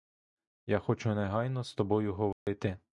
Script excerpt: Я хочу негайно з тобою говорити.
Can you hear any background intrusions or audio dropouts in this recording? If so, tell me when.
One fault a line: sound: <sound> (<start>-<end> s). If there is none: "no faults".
sound: dropout (2.3-2.5 s)